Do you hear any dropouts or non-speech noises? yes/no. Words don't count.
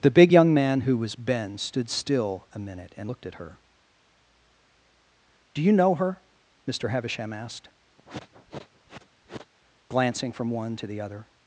yes